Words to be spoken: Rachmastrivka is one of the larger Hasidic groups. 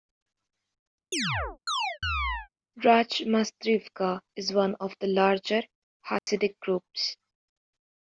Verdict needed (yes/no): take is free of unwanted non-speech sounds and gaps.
no